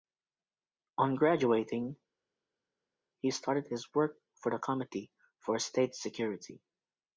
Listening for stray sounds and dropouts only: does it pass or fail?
pass